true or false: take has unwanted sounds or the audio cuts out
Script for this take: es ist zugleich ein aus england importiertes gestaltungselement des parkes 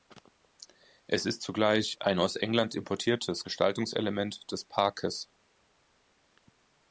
false